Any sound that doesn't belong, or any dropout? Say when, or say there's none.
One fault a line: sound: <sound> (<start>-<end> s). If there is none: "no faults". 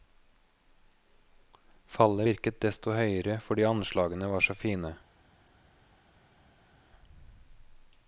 no faults